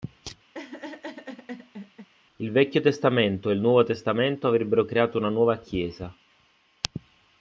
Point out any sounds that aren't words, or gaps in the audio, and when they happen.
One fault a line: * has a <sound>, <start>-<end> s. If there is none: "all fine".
* has a laugh, 0.5-2.1 s